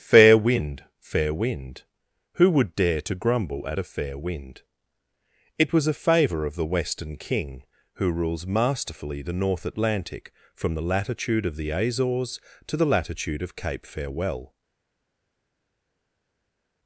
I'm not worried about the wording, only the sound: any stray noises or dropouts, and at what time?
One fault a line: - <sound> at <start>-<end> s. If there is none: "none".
none